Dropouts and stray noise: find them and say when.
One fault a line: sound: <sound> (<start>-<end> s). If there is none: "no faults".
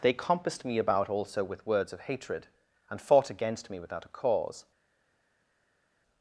no faults